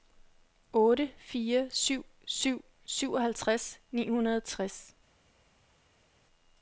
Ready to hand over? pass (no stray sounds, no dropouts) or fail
pass